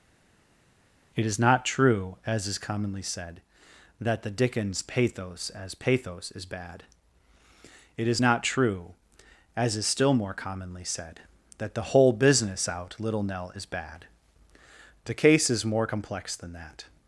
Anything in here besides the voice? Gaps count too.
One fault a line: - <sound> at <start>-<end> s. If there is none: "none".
none